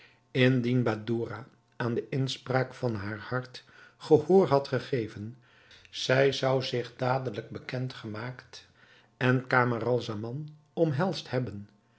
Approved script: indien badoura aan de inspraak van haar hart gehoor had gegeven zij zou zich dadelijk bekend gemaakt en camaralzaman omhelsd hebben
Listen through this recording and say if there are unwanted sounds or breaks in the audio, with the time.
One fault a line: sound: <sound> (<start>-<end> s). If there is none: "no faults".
no faults